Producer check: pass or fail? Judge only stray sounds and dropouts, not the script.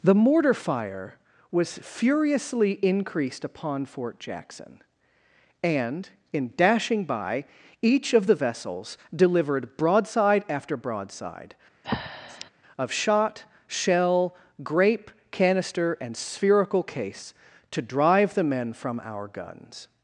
fail